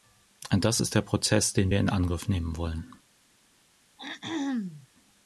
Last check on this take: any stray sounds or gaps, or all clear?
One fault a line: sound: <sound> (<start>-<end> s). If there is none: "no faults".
sound: throat clearing (4.0-4.9 s)